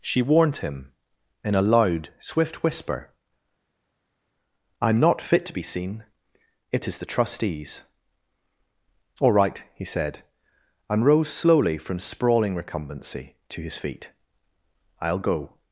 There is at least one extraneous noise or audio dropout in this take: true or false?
false